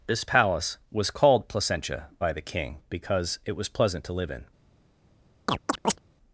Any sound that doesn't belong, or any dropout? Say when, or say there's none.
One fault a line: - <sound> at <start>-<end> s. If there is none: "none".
- chirp at 5.5-6.0 s